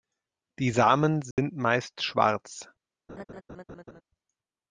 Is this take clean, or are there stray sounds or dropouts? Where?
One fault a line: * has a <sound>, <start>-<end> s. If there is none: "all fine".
* has a dropout, 1.3-1.4 s
* has a laugh, 3.1-4.0 s